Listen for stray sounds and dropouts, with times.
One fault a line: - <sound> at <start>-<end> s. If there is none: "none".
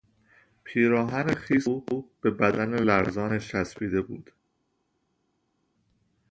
none